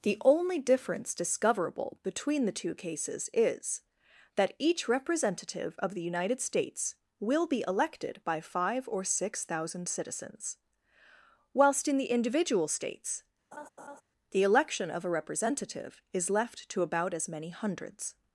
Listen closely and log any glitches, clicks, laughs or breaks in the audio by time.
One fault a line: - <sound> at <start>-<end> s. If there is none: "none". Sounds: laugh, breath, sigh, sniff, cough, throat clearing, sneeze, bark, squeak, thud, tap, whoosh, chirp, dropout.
- laugh at 13.5-14.0 s